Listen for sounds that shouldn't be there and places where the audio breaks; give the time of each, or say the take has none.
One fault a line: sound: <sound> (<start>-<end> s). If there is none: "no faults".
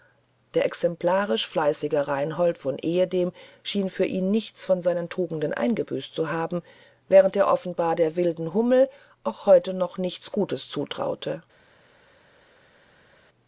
no faults